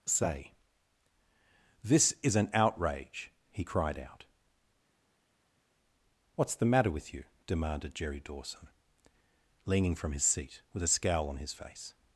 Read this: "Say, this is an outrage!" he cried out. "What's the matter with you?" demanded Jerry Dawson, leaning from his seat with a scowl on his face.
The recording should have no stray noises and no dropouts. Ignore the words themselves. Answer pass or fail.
pass